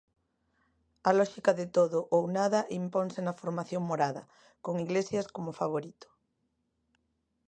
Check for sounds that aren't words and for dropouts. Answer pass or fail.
pass